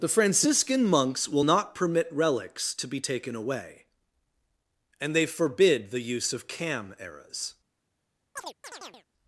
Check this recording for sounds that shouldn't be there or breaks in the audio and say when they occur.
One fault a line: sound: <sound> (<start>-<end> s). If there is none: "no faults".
sound: chirp (8.4-9.1 s)